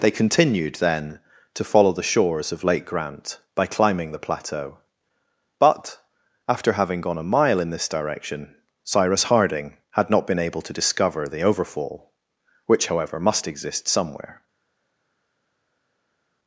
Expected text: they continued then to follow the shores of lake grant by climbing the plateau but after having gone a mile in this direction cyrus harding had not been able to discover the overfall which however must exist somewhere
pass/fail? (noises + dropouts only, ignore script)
pass